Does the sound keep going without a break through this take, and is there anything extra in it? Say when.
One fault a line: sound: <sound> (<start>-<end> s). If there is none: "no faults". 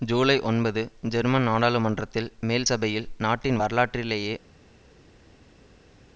no faults